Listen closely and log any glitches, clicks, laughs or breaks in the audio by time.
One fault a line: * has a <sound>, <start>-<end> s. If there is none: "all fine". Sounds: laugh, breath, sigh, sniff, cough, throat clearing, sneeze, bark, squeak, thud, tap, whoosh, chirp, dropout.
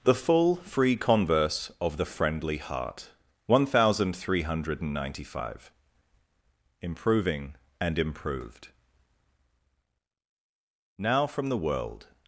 all fine